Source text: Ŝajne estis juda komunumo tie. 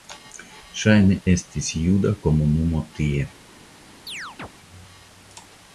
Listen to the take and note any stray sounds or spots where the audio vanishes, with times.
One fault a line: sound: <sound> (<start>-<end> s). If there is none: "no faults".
sound: chirp (4.1-4.5 s)